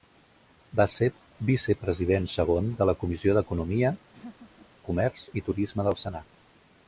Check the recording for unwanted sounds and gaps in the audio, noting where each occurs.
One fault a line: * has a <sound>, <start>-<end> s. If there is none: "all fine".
* has a laugh, 4.1-4.7 s